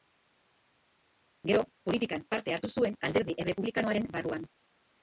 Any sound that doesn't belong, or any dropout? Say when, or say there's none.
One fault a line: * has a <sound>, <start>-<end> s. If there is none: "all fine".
all fine